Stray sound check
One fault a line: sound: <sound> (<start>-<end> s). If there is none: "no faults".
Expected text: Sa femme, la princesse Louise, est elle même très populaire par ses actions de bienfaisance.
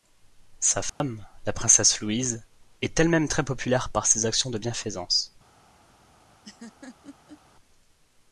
sound: dropout (0.9-1.0 s)
sound: laugh (6.4-7.4 s)